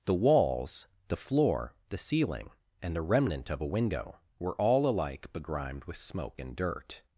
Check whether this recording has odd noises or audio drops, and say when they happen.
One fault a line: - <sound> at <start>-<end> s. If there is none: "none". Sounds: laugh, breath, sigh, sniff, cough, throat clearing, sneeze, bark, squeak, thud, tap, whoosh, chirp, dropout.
none